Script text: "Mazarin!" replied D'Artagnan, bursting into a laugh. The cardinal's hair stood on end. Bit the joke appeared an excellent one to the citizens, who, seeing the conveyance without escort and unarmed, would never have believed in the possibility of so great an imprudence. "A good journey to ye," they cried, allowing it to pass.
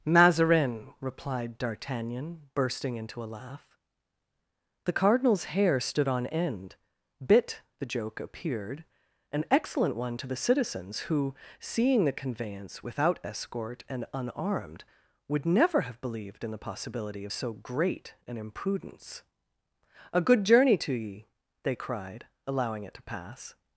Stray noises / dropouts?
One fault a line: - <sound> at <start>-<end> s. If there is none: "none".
none